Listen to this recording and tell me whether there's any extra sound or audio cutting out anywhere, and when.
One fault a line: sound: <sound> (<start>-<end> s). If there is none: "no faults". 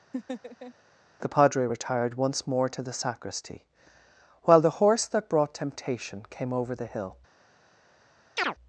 sound: laugh (0.1-0.7 s)
sound: chirp (8.4-8.5 s)